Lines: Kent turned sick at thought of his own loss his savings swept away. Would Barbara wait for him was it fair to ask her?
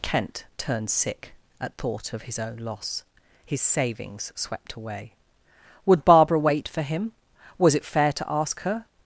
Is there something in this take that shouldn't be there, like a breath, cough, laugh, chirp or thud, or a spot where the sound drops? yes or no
no